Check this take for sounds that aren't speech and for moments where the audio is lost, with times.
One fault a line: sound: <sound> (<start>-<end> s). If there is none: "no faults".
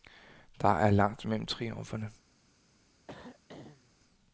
sound: throat clearing (3.1-3.9 s)